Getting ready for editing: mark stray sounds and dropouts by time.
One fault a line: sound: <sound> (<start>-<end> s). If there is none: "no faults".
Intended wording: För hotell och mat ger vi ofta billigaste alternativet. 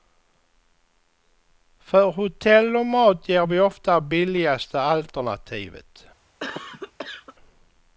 sound: cough (6.4-7.4 s)